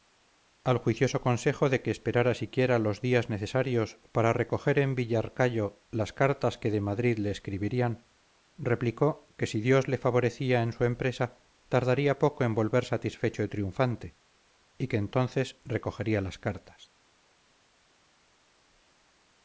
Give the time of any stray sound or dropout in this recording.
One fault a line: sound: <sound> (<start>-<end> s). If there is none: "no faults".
no faults